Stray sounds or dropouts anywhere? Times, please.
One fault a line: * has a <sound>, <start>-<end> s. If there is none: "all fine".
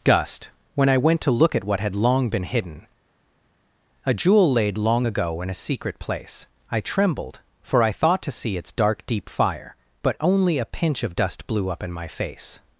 all fine